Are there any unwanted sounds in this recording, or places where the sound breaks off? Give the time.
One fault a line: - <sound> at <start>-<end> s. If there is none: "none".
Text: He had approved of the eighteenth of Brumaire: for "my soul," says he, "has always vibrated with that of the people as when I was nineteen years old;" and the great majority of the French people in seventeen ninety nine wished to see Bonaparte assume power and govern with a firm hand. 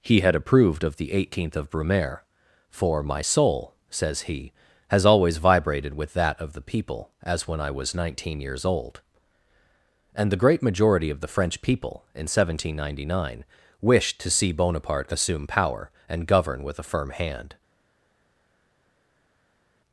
none